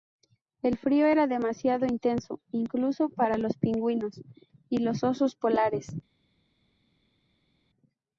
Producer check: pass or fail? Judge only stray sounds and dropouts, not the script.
pass